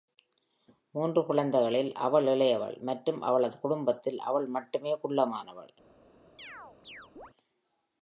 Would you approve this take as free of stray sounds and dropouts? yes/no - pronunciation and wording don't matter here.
no